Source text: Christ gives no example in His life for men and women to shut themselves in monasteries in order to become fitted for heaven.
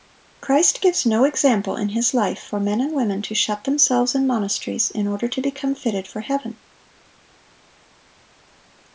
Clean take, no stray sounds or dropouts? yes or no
yes